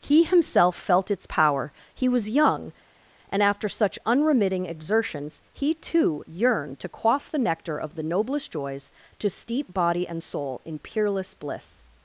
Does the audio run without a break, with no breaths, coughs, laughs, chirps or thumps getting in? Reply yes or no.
yes